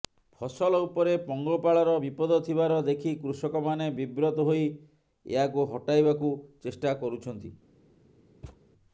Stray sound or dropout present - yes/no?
yes